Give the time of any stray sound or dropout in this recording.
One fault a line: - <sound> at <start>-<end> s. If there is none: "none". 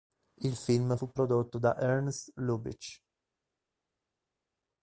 none